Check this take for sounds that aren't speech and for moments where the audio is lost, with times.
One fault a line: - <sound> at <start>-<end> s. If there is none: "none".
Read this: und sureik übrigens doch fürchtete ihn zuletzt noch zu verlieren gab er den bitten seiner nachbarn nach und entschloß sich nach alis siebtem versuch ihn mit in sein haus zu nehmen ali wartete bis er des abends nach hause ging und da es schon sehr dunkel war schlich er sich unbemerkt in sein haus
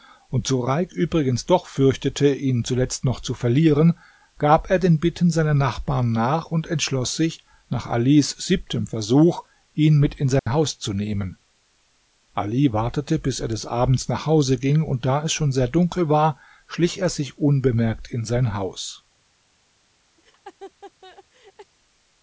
- dropout at 10.4-10.5 s
- laugh at 20.2-21.7 s